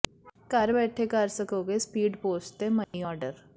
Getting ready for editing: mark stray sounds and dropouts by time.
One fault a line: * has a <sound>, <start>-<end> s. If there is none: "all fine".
* has a dropout, 2.8-2.9 s